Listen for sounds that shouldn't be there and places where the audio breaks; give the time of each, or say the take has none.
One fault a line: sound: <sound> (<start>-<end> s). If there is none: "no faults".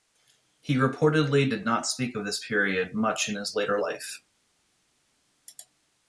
no faults